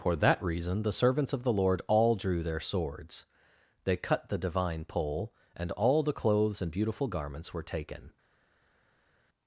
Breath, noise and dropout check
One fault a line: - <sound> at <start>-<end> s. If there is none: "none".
none